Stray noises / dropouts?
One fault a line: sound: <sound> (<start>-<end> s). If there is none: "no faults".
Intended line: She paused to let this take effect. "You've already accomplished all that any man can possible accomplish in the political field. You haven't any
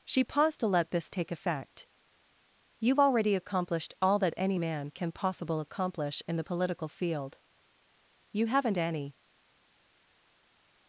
no faults